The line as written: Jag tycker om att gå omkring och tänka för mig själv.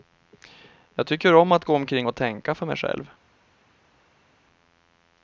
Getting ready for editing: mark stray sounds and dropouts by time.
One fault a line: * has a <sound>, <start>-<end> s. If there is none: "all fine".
all fine